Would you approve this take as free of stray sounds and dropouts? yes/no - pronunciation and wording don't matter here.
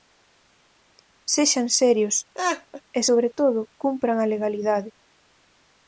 no